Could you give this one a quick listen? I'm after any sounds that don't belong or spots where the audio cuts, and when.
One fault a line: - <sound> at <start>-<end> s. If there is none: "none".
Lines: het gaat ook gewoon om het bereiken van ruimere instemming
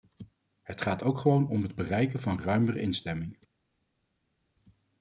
none